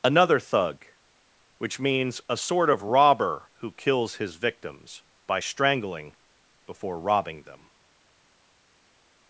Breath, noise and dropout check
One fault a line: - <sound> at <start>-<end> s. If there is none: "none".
none